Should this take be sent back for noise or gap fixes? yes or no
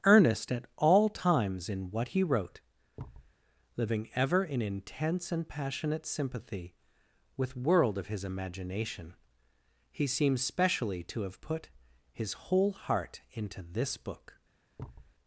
yes